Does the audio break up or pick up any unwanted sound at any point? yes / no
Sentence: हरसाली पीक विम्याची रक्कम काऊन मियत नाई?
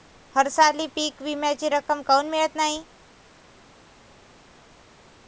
no